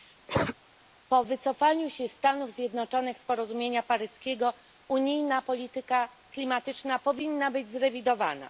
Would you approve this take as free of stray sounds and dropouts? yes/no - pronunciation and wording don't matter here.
no